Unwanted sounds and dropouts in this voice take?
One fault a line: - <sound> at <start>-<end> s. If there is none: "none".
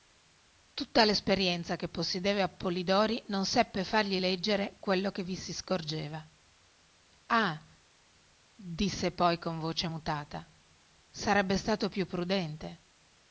none